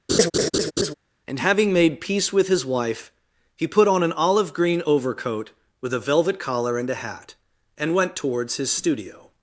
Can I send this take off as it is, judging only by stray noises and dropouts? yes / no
no